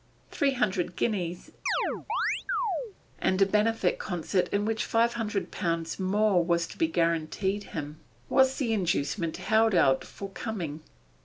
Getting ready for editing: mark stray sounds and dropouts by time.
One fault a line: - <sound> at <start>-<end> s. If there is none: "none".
- chirp at 1.7-3.0 s